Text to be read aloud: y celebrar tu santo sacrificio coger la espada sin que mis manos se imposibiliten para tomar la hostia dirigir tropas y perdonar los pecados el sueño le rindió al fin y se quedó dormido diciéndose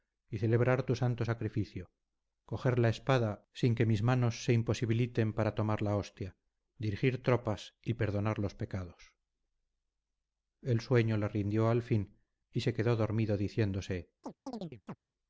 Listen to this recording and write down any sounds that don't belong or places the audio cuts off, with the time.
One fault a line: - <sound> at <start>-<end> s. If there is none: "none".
- chirp at 14.2-15.0 s